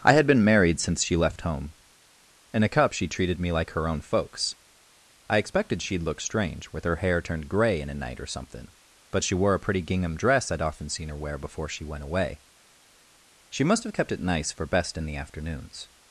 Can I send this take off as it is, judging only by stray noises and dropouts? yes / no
yes